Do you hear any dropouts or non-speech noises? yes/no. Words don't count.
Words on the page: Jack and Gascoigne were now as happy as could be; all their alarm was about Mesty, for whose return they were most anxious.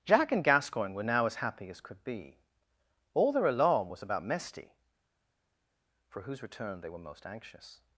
no